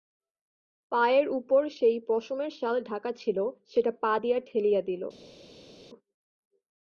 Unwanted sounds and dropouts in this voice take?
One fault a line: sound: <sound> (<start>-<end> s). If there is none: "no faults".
no faults